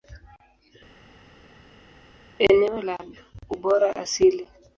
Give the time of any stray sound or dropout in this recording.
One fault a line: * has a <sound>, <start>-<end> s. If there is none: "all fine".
all fine